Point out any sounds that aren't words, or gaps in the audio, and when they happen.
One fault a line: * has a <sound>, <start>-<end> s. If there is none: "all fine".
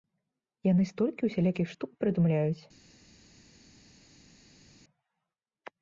all fine